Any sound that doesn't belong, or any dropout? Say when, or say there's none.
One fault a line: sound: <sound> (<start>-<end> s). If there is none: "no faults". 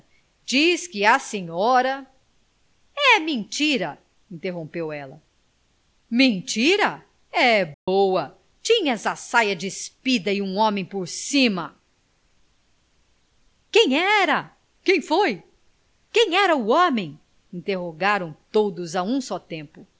sound: dropout (7.7-7.9 s)